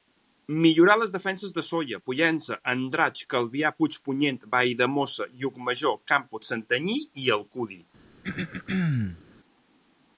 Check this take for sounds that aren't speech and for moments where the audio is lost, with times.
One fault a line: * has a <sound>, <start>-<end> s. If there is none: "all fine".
* has a throat clearing, 8.2-9.2 s